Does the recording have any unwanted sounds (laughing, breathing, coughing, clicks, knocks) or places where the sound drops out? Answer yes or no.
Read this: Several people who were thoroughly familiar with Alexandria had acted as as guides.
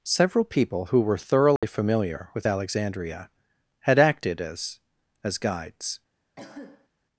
yes